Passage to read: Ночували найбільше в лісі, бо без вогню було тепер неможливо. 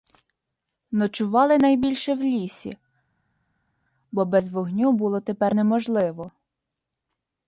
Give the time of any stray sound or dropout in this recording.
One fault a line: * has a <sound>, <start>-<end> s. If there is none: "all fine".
all fine